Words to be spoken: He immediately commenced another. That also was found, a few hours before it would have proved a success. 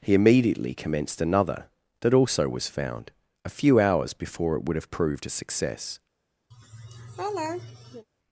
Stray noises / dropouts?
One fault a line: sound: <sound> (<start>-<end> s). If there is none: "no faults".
sound: laugh (6.5-8.1 s)